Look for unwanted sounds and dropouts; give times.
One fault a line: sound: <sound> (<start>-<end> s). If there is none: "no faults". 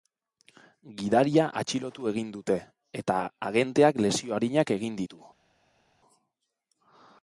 no faults